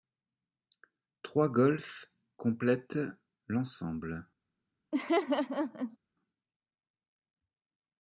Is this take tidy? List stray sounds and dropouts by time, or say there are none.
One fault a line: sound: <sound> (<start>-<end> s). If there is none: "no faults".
sound: laugh (4.9-6.0 s)